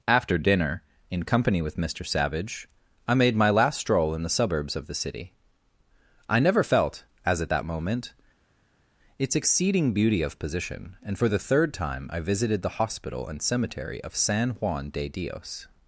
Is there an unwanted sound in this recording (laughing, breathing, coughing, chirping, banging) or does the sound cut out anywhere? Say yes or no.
no